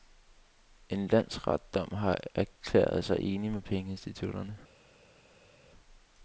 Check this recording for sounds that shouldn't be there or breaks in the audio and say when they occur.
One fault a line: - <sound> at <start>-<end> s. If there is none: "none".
none